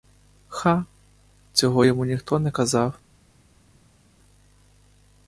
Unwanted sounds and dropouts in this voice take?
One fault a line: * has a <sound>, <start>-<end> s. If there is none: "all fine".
all fine